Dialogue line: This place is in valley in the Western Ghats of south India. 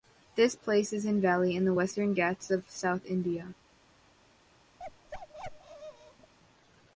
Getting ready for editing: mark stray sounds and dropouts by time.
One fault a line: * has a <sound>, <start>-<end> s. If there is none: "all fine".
* has a bark, 4.8-6.3 s